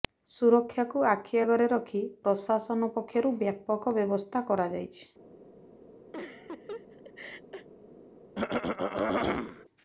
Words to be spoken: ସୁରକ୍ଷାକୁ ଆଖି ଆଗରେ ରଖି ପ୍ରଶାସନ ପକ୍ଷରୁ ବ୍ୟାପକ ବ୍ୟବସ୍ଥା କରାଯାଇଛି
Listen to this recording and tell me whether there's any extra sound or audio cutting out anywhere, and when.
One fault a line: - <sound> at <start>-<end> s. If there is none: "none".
- laugh at 6.1-7.7 s
- throat clearing at 8.4-9.7 s